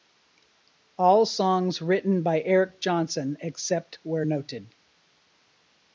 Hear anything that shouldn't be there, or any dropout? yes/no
no